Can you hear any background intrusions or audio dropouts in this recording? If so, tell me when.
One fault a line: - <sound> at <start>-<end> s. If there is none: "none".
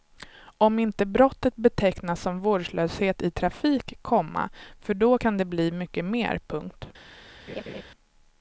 - laugh at 7.5-7.8 s